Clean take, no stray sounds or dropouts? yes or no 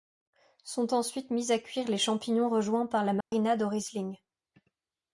no